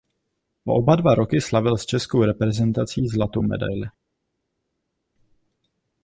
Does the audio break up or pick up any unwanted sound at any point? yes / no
no